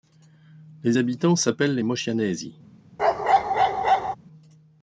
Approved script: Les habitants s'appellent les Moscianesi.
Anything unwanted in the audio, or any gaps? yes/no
yes